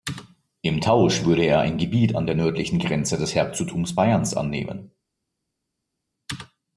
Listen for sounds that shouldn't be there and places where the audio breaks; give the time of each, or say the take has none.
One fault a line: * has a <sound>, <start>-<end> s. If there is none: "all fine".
all fine